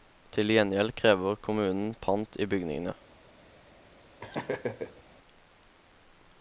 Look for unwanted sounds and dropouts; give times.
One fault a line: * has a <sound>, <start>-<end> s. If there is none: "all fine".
* has a laugh, 4.2-5.0 s